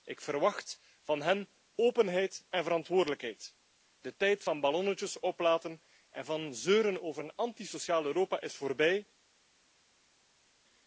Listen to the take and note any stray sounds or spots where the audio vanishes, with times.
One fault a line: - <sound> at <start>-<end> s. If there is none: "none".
none